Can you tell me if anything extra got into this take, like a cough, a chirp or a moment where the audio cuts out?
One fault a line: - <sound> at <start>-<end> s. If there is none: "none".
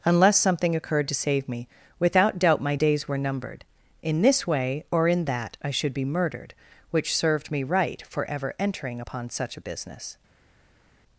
none